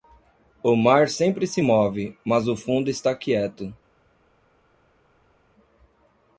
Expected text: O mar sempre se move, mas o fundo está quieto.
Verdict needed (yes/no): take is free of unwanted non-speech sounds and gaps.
yes